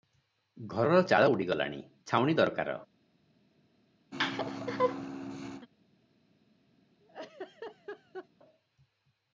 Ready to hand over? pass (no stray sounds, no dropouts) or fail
fail